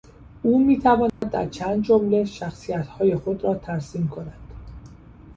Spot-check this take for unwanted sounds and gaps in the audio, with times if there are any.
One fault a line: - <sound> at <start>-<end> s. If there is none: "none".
- dropout at 1.1-1.2 s